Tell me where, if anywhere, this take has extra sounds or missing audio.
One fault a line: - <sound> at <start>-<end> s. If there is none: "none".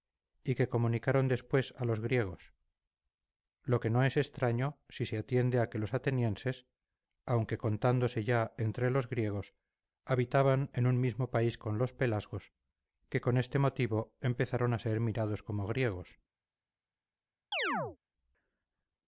- chirp at 17.5-18.0 s